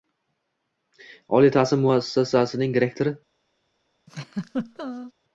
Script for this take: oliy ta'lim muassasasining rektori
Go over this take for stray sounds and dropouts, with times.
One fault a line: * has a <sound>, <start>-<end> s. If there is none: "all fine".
* has a laugh, 4.1-5.1 s